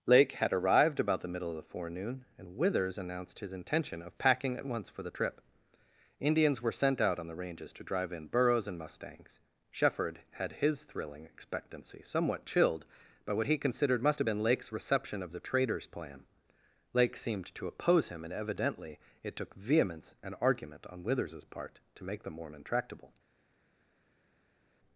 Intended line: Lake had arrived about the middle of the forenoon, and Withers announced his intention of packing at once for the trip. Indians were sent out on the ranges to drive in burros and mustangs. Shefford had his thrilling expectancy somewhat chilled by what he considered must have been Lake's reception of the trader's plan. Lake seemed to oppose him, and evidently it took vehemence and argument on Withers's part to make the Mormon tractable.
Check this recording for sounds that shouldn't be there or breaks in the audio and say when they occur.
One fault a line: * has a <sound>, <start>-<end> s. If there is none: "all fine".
all fine